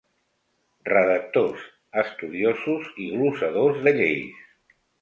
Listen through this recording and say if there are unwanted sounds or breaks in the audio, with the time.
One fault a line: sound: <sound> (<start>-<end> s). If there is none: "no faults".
no faults